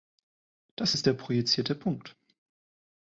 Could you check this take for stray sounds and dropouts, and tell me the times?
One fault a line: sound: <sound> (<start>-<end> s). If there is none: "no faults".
no faults